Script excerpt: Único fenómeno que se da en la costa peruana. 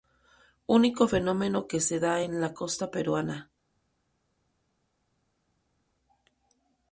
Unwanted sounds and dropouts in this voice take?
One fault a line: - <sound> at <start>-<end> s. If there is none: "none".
none